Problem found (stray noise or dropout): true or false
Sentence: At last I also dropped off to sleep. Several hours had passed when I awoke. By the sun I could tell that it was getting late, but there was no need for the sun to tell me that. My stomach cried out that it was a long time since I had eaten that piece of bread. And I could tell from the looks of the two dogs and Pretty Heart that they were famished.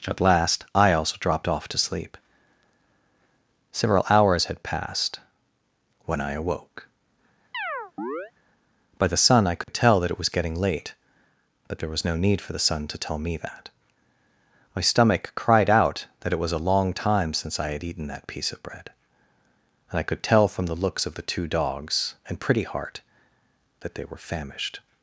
true